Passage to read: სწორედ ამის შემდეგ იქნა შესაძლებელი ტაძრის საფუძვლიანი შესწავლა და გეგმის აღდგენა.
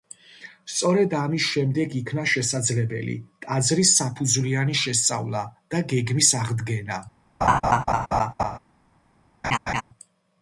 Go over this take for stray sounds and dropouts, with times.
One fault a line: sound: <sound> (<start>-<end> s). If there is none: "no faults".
sound: laugh (7.4-8.6 s)
sound: laugh (9.4-9.8 s)